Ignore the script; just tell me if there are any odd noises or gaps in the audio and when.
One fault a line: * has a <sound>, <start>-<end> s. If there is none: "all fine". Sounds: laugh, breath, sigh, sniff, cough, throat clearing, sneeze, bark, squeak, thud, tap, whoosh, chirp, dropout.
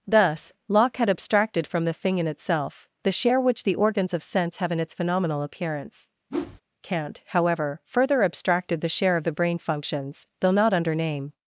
* has a whoosh, 6.3-6.6 s